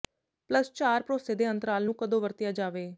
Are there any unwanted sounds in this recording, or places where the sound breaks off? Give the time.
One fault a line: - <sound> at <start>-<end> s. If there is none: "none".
none